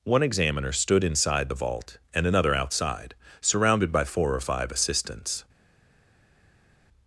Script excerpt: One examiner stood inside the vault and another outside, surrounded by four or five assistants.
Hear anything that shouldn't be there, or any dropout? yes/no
no